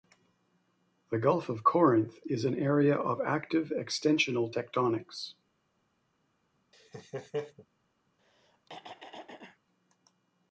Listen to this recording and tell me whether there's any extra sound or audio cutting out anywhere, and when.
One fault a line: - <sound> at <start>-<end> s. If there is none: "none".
- laugh at 6.7-7.7 s
- throat clearing at 8.2-9.6 s